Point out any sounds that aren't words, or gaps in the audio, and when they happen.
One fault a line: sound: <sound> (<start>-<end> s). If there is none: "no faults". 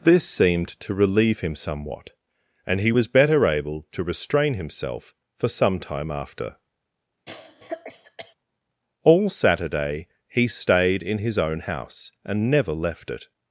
sound: cough (7.3-8.3 s)